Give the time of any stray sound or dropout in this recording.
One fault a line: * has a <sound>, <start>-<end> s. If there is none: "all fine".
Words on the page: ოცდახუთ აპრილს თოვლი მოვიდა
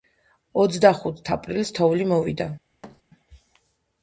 * has a thud, 2.8-3.0 s